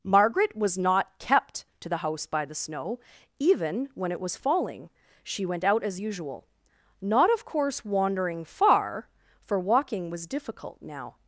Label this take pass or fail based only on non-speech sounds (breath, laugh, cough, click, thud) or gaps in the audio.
pass